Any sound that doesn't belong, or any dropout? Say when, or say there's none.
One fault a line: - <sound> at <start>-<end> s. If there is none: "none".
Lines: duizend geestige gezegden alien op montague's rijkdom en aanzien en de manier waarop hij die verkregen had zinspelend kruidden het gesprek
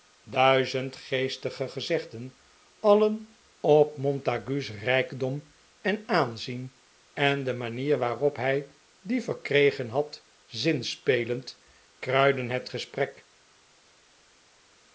none